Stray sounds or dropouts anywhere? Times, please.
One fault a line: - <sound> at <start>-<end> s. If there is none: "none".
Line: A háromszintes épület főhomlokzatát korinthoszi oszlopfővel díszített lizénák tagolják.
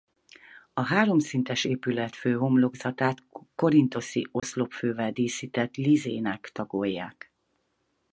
- dropout at 4.4-4.4 s